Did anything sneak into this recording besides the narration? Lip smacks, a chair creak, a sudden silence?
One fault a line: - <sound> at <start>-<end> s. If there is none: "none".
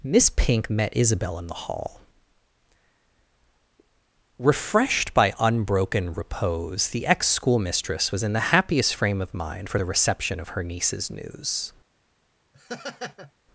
- laugh at 12.5-13.3 s